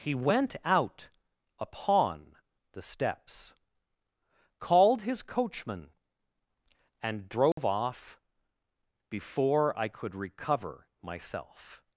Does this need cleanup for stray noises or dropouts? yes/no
yes